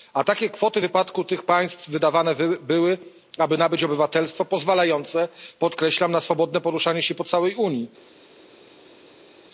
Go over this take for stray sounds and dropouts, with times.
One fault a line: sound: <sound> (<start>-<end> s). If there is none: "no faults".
no faults